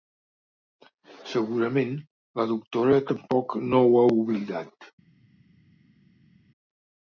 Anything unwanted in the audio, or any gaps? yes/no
no